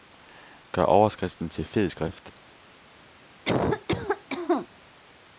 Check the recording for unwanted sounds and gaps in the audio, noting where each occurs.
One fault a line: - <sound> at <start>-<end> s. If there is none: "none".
- cough at 3.4-4.7 s